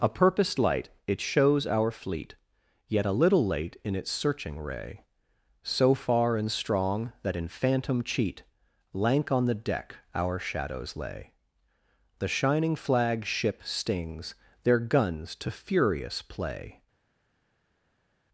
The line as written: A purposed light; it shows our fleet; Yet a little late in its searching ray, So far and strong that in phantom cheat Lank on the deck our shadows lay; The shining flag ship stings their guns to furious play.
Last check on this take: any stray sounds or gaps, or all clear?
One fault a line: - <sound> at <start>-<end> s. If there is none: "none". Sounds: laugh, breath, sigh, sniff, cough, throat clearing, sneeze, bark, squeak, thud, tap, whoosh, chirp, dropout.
none